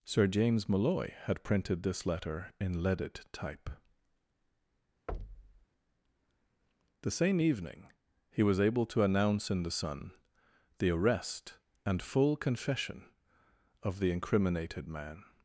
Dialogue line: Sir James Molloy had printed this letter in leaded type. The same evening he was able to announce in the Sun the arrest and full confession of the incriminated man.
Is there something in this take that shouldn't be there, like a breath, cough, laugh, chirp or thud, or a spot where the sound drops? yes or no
yes